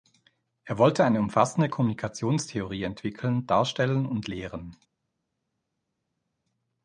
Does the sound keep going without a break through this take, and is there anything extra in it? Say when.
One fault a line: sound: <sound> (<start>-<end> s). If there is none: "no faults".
no faults